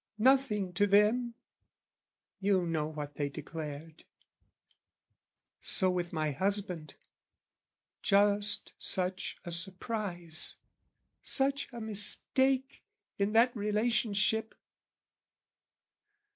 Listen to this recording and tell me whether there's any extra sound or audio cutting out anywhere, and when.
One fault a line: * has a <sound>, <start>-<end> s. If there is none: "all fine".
all fine